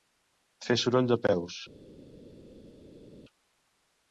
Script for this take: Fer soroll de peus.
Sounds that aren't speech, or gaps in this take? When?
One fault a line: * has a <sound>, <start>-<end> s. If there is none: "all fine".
all fine